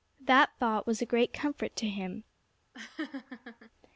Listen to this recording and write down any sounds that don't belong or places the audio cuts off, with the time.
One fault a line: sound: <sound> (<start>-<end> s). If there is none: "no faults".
sound: laugh (2.7-3.7 s)